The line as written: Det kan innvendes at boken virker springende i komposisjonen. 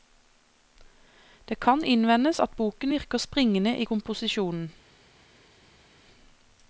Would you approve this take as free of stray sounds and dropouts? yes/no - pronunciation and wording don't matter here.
yes